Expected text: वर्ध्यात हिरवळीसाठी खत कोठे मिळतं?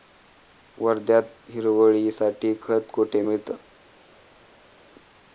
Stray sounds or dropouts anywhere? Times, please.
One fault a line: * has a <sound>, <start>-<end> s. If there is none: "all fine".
all fine